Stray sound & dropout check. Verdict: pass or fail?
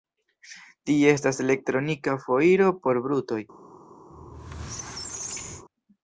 fail